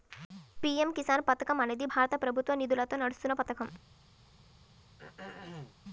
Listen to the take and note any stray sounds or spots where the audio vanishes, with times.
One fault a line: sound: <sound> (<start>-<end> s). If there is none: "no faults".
sound: throat clearing (5.0-5.7 s)